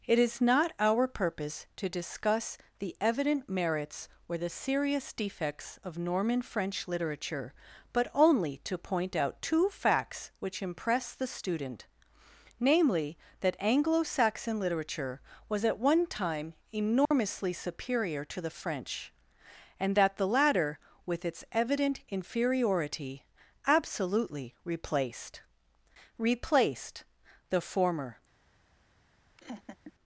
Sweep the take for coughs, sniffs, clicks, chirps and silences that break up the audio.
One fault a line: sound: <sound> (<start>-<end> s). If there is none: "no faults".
sound: dropout (17.1-17.1 s)
sound: laugh (29.4-29.9 s)